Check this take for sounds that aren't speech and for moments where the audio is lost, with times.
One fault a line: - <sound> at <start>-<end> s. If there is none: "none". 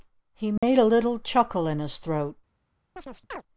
- dropout at 0.6-0.6 s
- chirp at 3.0-3.4 s